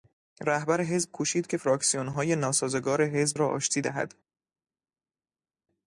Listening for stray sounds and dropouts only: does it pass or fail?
pass